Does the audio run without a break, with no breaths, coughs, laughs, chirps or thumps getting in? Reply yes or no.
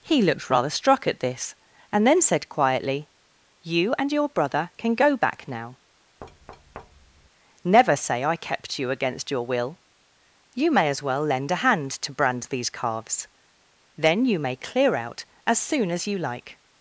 no